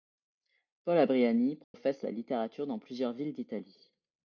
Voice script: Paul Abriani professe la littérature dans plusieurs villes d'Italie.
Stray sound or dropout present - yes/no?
yes